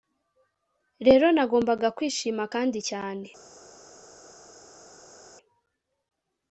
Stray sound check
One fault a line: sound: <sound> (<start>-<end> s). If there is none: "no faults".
no faults